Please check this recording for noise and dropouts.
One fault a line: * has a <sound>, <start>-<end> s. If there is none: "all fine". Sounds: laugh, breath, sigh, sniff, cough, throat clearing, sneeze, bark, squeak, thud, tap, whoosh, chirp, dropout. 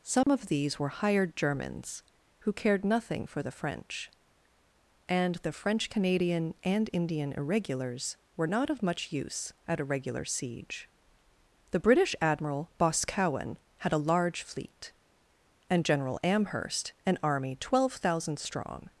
* has a dropout, 0.2-0.3 s